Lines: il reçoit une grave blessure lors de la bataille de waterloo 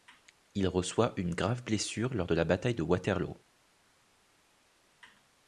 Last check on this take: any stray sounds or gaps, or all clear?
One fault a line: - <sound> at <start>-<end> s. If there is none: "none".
none